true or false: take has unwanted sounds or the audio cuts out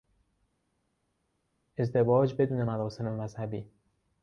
false